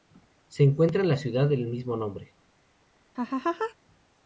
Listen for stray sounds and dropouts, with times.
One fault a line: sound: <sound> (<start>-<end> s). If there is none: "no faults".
sound: laugh (3.1-3.7 s)